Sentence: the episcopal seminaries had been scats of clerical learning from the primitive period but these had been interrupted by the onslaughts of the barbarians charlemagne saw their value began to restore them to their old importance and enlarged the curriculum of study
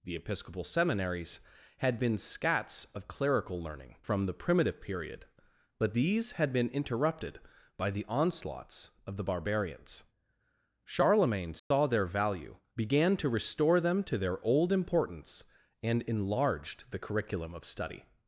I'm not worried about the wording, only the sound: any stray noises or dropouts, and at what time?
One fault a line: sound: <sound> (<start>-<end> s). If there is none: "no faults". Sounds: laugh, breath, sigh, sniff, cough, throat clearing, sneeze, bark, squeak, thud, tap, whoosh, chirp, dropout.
sound: dropout (11.6-11.7 s)